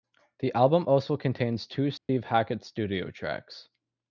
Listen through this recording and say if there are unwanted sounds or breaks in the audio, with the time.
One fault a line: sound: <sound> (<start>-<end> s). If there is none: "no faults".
sound: dropout (2.0-2.1 s)